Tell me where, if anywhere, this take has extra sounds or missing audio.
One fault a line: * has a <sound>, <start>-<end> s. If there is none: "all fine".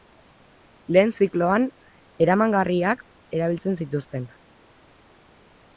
all fine